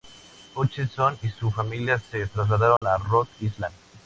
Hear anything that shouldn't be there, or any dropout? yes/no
yes